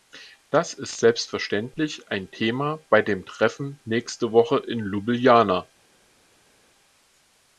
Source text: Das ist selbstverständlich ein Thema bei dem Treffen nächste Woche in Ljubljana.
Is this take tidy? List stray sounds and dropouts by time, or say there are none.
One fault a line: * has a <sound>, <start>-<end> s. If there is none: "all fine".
all fine